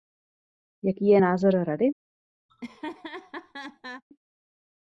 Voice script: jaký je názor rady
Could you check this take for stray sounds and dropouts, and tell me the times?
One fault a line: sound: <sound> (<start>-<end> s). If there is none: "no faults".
sound: laugh (2.5-4.0 s)